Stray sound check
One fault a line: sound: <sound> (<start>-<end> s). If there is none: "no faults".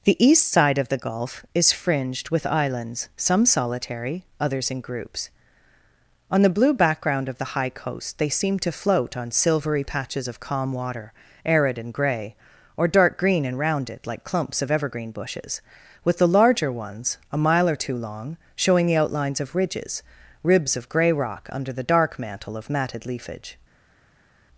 no faults